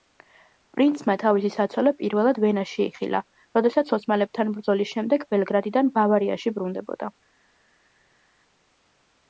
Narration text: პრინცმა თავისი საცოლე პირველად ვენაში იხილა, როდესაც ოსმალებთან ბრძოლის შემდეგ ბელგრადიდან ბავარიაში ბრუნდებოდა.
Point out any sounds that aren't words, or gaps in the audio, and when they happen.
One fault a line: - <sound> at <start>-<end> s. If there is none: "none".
none